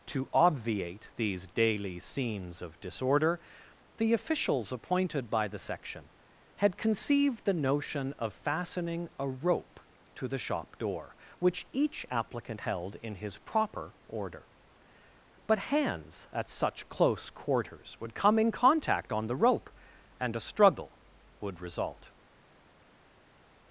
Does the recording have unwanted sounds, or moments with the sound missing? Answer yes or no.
no